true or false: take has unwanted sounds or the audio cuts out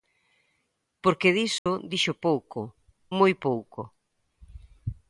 true